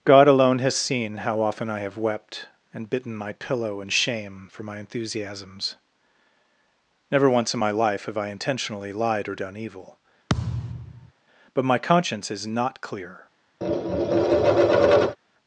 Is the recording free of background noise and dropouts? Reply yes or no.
no